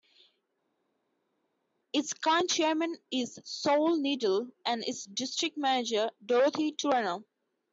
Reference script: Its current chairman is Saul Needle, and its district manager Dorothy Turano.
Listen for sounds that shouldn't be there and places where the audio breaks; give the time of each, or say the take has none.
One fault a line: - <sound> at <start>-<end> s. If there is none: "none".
none